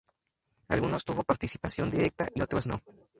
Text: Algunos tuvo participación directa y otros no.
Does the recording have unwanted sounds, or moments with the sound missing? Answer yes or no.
no